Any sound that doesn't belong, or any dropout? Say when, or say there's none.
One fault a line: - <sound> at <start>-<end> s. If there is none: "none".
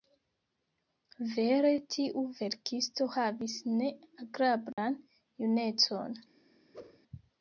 - dropout at 4.7-4.8 s
- whoosh at 6.7-7.0 s